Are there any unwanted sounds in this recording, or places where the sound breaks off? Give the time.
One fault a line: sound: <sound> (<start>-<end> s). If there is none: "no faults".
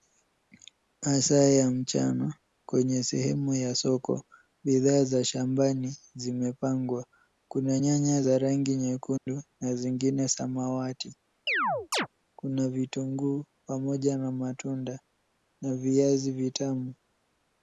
sound: dropout (9.2-9.3 s)
sound: chirp (11.5-12.1 s)